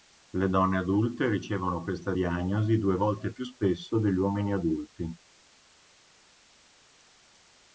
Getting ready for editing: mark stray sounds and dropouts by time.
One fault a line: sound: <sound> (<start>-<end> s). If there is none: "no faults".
no faults